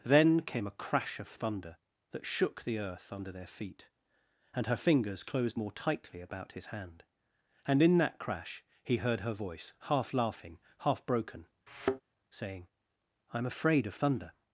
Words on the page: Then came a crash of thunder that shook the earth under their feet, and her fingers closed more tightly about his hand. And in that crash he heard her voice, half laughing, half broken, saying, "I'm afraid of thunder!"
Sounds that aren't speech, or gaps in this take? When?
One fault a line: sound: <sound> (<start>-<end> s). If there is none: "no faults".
sound: thud (11.7-12.0 s)